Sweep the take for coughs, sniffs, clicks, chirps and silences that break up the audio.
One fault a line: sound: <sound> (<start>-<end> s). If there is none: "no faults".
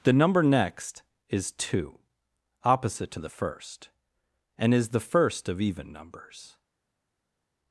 no faults